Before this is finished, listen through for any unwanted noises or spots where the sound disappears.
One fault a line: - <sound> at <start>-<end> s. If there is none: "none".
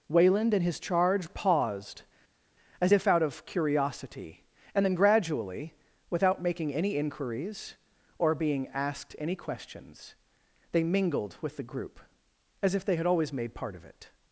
none